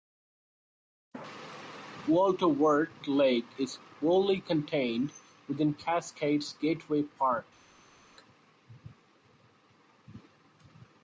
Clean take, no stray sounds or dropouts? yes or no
yes